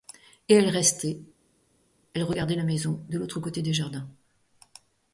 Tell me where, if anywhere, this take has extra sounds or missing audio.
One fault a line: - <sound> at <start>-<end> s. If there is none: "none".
none